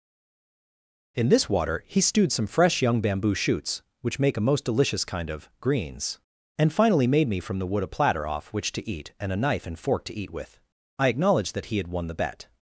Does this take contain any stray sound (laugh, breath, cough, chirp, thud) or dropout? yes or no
no